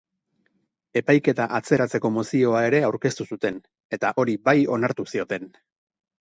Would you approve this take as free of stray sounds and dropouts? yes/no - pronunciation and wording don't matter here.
yes